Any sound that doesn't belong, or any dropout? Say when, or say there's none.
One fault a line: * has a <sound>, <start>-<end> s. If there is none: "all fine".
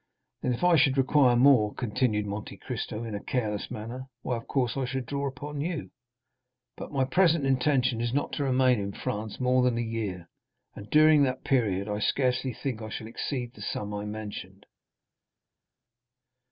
all fine